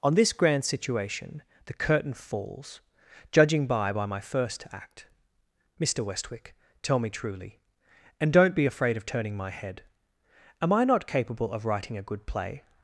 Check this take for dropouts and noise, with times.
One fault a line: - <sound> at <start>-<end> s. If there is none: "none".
none